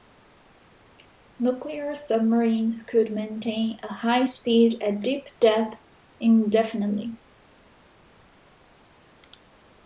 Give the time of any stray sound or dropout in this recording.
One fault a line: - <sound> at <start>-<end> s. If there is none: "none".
none